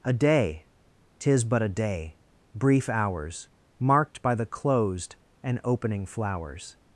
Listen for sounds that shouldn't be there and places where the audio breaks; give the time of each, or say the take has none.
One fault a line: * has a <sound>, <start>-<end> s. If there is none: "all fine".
all fine